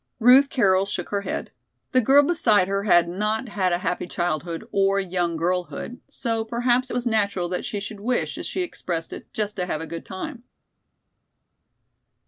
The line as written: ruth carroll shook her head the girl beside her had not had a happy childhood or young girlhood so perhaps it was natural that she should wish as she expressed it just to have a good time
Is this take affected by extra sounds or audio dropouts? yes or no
no